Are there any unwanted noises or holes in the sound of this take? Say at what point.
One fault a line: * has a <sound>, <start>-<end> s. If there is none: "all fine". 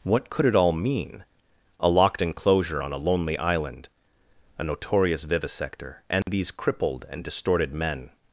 * has a dropout, 6.2-6.3 s